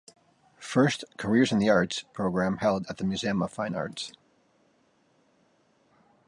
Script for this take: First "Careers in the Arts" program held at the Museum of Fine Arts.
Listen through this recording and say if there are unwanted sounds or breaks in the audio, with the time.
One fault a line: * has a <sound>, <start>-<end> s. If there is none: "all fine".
all fine